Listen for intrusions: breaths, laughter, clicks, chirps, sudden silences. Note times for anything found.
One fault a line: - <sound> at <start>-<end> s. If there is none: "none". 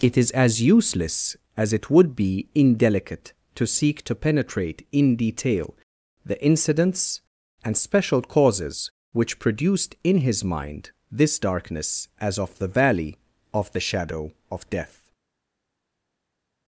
none